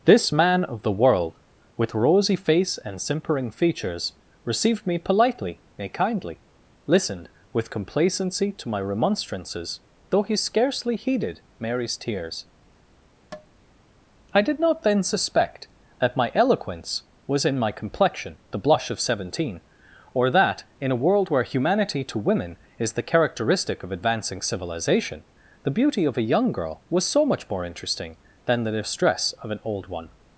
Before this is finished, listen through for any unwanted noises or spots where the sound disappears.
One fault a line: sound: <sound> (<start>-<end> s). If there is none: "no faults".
sound: tap (13.3-13.5 s)